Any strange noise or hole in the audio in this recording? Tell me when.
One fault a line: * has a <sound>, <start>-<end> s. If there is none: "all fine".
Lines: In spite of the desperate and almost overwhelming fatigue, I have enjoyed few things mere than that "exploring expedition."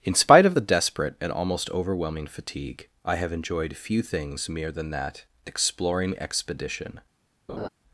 * has a laugh, 7.5-7.7 s